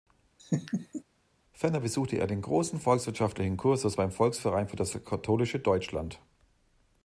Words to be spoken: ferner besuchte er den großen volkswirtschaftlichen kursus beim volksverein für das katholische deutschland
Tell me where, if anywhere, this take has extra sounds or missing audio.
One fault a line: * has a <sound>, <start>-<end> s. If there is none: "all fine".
* has a laugh, 0.4-1.0 s